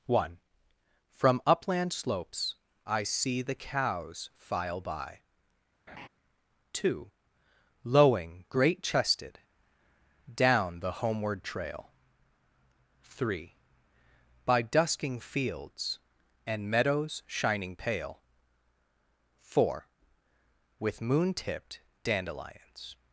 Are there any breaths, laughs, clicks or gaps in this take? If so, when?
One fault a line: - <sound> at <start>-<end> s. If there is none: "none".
- laugh at 5.9-6.1 s